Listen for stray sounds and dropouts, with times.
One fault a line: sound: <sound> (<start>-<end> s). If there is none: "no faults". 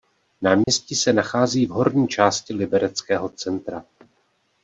sound: dropout (0.6-0.7 s)